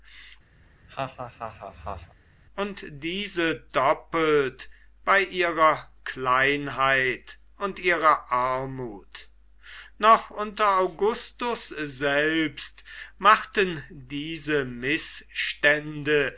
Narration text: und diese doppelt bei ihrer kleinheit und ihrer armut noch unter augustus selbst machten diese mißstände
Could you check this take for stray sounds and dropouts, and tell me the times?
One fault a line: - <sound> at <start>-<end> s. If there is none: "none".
- laugh at 0.6-2.1 s